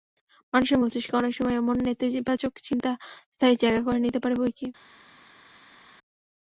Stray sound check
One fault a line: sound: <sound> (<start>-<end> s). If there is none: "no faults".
no faults